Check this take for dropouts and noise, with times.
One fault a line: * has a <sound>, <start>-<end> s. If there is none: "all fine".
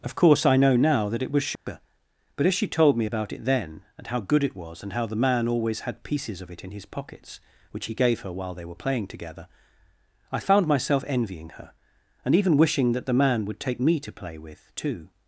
* has a dropout, 1.6-1.7 s